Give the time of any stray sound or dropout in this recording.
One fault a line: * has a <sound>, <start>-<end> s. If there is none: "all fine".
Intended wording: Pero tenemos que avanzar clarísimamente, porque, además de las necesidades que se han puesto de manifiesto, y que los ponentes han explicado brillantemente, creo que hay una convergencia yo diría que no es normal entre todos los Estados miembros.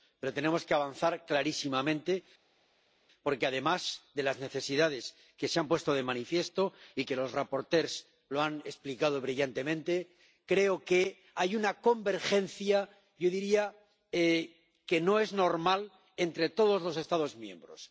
all fine